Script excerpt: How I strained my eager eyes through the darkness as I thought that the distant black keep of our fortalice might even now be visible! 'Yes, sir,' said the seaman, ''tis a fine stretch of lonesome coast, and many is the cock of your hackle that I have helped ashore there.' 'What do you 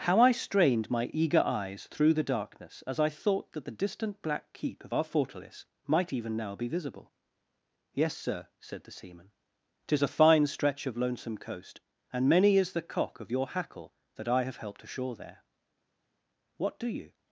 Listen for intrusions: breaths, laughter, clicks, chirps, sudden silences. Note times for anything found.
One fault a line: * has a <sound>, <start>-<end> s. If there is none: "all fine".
all fine